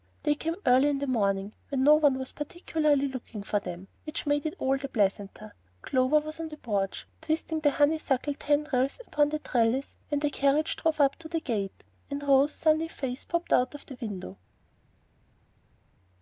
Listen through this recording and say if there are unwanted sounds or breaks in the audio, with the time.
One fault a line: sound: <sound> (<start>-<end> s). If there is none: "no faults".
no faults